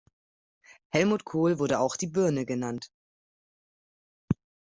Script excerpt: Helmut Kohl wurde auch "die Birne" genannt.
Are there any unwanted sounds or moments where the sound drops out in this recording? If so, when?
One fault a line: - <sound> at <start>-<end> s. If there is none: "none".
none